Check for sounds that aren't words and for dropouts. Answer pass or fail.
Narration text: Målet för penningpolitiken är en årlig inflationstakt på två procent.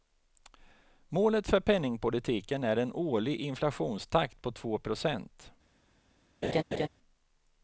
fail